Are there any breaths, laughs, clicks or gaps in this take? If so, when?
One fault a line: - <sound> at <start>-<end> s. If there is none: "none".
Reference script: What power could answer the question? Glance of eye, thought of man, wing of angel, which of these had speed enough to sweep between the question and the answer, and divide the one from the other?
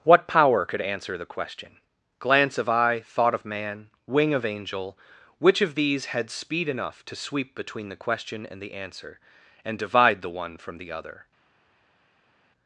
none